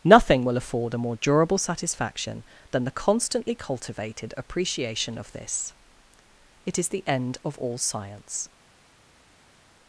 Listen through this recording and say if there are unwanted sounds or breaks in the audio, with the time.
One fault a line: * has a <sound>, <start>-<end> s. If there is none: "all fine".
all fine